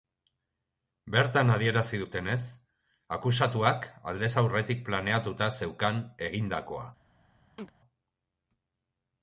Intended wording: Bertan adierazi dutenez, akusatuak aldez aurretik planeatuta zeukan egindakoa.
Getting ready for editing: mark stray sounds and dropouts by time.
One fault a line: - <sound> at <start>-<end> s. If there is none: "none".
- chirp at 7.6-7.7 s